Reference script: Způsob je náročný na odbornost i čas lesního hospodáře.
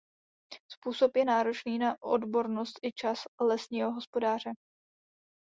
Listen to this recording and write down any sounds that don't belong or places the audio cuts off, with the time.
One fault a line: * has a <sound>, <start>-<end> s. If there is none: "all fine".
all fine